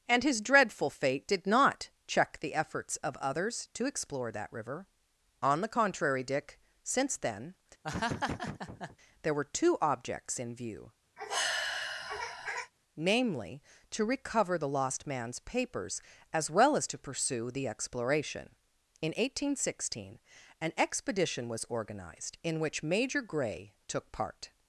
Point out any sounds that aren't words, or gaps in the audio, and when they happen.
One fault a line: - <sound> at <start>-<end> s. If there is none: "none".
- laugh at 7.8-9.0 s
- sigh at 11.2-12.7 s